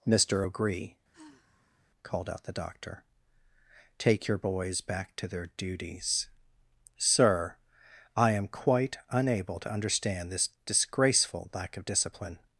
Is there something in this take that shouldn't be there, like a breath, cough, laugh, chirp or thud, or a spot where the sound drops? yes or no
yes